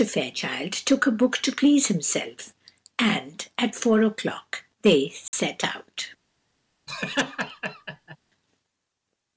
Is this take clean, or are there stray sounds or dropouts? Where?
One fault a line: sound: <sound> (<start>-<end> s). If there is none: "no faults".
sound: dropout (5.3-5.3 s)
sound: laugh (6.9-8.2 s)